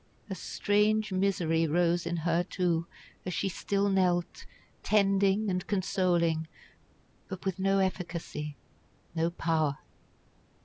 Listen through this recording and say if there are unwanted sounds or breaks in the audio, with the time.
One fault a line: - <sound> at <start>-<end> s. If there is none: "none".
none